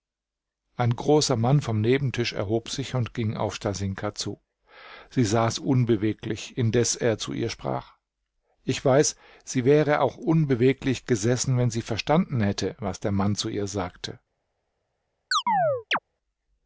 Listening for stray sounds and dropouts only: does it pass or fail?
fail